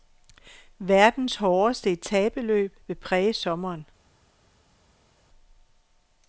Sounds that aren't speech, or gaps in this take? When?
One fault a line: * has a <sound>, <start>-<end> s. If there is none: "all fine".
all fine